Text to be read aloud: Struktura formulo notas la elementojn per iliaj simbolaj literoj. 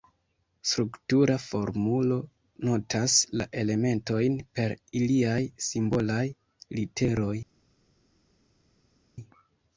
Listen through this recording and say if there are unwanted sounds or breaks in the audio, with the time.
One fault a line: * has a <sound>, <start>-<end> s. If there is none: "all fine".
all fine